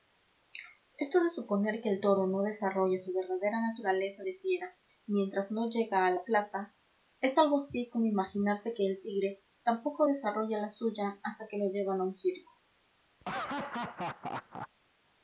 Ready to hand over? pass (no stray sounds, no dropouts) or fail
fail